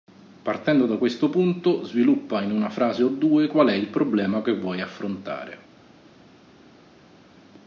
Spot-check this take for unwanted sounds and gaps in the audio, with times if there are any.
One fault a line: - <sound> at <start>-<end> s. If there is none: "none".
none